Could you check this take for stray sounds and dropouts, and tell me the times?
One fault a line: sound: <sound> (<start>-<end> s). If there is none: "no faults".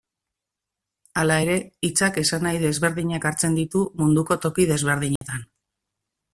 sound: dropout (5.2-5.2 s)